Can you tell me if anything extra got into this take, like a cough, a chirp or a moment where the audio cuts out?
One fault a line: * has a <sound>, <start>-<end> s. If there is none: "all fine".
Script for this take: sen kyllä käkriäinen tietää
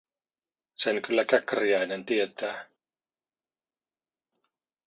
all fine